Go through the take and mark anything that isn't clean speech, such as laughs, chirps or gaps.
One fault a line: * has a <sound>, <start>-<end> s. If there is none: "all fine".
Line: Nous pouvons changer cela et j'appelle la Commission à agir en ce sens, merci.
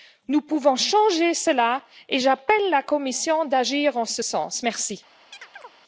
* has a chirp, 5.3-5.7 s